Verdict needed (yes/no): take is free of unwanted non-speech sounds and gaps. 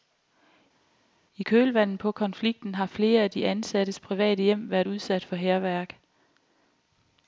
yes